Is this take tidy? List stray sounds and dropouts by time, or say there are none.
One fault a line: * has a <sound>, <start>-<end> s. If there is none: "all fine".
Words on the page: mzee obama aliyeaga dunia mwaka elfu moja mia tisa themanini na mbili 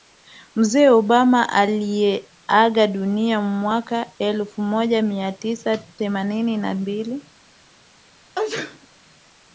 * has a sneeze, 8.4-8.9 s